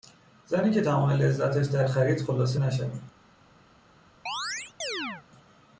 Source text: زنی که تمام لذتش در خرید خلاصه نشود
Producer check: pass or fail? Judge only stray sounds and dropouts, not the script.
fail